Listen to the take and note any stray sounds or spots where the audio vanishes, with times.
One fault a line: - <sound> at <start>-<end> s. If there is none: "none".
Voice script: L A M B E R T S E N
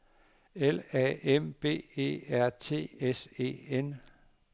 none